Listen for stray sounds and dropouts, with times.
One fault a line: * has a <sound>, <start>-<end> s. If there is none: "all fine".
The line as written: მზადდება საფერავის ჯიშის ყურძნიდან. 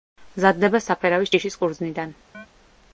* has a chirp, 2.3-2.5 s